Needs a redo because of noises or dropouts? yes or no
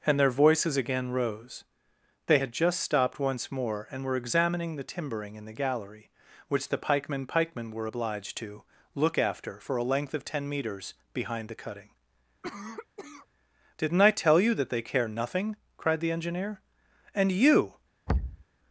yes